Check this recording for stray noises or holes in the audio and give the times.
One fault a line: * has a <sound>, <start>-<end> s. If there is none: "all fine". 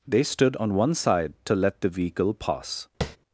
* has a tap, 3.0-3.2 s